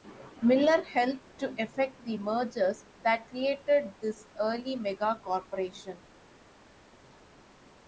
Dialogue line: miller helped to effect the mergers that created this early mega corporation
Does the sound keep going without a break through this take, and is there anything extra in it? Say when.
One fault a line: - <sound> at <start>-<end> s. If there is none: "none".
none